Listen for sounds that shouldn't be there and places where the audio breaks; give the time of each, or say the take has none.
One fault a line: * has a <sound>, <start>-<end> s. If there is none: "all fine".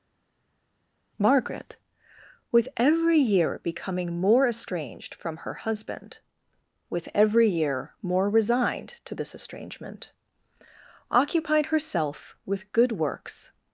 all fine